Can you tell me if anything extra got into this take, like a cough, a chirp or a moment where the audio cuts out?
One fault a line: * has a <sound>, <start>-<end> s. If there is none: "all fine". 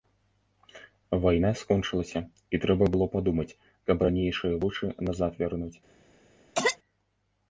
* has a cough, 6.6-6.8 s